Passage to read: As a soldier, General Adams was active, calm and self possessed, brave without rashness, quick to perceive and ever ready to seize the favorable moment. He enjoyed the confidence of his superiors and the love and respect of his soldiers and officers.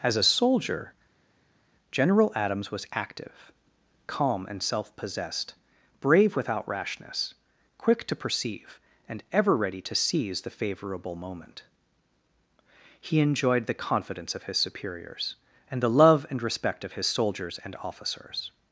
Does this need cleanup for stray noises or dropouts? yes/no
no